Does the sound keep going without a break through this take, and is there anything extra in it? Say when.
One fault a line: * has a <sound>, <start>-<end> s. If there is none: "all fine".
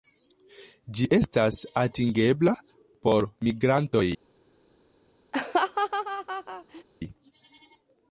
* has a laugh, 5.3-6.8 s